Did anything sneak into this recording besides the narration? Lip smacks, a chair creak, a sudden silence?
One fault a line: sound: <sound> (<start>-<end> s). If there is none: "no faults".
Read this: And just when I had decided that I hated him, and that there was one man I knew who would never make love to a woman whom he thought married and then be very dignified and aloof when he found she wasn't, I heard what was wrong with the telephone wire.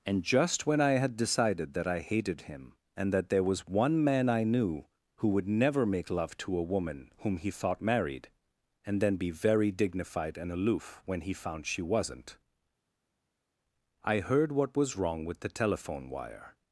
no faults